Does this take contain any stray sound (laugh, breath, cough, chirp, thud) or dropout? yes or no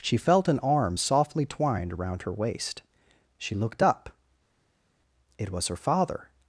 no